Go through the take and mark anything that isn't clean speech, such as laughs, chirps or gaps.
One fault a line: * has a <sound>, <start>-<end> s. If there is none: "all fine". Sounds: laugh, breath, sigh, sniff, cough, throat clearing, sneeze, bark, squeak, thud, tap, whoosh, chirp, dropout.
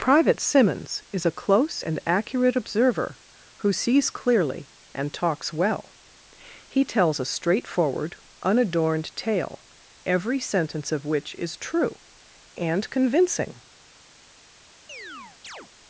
* has a chirp, 14.9-15.7 s